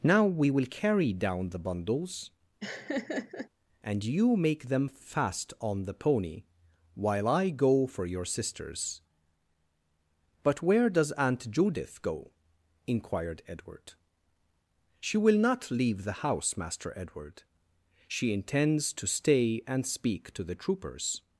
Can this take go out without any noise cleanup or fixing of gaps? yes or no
no